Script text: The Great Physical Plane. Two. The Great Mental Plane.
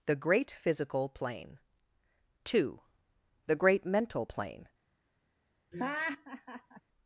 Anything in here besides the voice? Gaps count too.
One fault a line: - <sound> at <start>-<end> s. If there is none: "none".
- laugh at 5.7-6.8 s